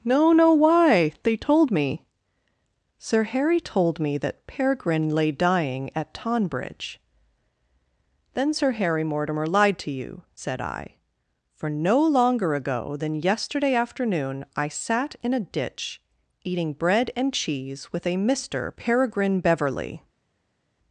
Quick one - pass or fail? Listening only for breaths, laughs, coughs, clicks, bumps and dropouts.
pass